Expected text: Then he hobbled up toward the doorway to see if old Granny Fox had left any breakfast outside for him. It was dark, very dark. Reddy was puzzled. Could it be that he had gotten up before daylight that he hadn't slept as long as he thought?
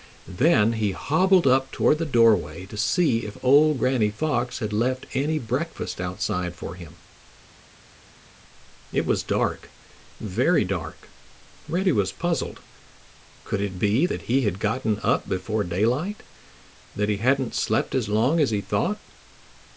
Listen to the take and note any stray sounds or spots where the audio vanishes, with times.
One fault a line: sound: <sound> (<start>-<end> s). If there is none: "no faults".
no faults